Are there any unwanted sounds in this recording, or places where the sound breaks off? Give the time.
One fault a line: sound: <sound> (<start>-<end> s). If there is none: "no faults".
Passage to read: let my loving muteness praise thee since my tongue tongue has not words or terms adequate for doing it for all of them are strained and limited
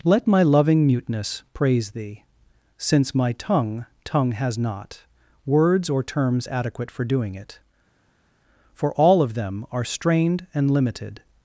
no faults